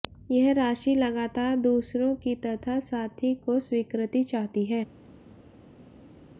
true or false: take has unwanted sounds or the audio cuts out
false